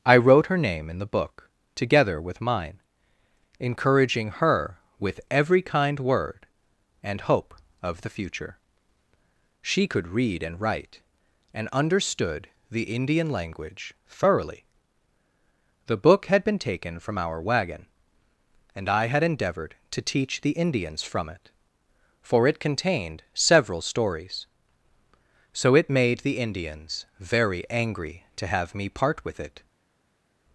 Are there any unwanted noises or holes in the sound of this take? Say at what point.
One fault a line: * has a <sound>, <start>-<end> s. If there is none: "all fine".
all fine